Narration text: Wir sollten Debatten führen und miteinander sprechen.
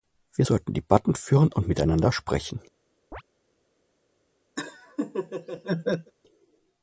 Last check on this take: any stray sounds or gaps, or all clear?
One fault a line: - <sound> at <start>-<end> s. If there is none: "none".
- chirp at 3.1-3.2 s
- laugh at 4.6-6.1 s